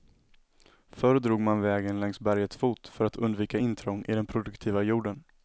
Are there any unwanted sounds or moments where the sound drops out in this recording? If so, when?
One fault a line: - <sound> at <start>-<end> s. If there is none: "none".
none